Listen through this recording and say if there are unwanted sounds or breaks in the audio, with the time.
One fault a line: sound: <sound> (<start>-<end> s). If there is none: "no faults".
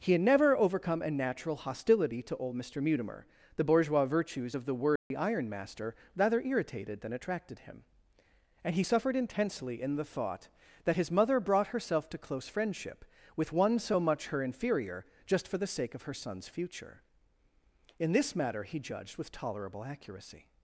sound: dropout (5.0-5.1 s)